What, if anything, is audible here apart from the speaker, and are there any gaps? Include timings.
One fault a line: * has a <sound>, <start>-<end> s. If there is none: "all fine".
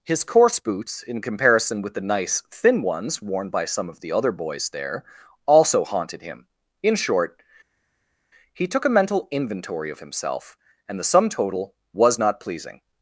all fine